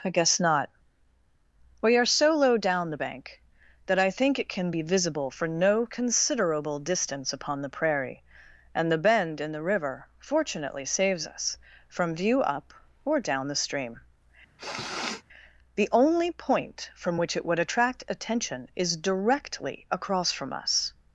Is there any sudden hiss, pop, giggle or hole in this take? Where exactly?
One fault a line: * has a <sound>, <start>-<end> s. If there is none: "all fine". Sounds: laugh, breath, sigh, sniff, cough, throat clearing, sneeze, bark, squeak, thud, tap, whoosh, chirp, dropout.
* has a sniff, 14.6-15.2 s